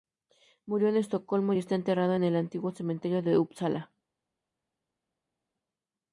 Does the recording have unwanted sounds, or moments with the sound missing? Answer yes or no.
no